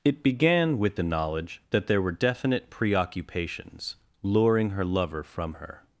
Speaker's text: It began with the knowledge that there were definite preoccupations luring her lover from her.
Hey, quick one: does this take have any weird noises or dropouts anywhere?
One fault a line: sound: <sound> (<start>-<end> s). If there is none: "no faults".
no faults